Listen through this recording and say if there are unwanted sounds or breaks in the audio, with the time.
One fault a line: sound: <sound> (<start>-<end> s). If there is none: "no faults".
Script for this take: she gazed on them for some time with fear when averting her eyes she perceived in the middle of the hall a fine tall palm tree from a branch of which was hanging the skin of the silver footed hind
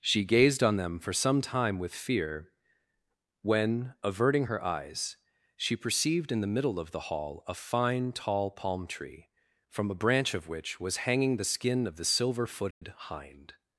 sound: dropout (12.7-12.8 s)